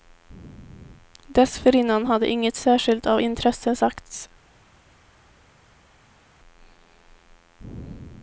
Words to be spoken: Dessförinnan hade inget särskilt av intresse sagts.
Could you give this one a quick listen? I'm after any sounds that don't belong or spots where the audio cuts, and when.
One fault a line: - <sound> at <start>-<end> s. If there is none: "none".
none